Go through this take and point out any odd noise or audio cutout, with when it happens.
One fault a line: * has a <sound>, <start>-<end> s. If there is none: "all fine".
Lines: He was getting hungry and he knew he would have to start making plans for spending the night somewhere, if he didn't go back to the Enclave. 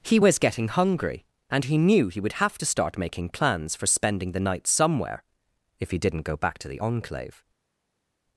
all fine